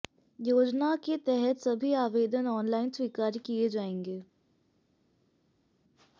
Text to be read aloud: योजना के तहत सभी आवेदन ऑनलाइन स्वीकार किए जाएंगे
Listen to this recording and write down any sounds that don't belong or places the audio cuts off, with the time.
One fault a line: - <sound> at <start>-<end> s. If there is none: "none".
none